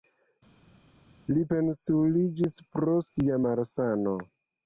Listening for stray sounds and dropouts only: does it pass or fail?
pass